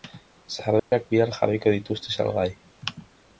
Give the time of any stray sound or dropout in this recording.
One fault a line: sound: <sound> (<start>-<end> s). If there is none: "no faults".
sound: dropout (0.8-0.9 s)